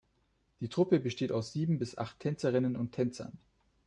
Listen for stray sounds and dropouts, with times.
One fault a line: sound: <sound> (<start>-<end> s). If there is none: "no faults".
no faults